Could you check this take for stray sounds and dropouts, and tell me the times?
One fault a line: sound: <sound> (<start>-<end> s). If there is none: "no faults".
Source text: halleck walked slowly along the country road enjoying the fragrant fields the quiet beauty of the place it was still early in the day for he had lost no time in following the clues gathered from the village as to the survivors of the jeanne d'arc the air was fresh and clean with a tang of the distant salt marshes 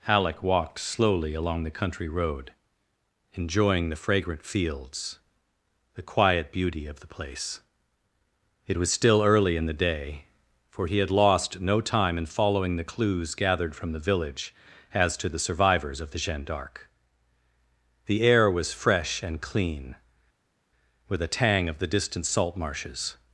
no faults